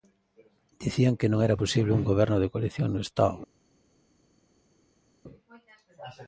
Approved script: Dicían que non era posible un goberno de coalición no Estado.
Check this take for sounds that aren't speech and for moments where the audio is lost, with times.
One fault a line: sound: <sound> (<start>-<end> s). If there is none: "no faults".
no faults